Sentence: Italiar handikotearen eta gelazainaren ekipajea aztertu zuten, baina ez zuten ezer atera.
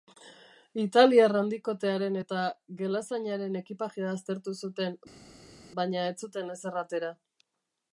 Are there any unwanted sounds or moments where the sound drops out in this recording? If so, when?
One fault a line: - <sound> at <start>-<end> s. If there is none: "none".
none